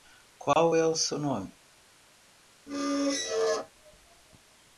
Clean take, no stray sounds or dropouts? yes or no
no